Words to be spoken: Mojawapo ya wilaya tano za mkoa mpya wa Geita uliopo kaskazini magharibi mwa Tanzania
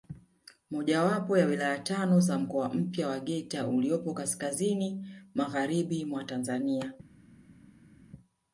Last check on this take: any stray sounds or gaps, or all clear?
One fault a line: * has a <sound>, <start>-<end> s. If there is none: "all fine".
all fine